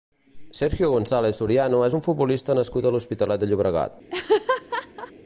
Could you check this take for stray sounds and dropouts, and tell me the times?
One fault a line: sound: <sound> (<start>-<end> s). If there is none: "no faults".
sound: laugh (4.1-5.1 s)